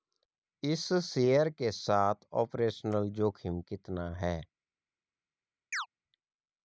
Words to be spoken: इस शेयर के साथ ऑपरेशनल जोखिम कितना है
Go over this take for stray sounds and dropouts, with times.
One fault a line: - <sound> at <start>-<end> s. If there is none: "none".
- chirp at 5.7-5.9 s